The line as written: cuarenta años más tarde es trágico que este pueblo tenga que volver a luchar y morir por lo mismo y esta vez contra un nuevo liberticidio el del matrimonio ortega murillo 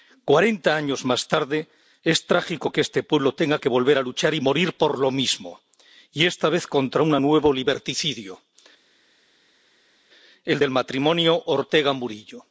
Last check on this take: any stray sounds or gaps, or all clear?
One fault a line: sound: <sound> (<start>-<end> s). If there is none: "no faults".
no faults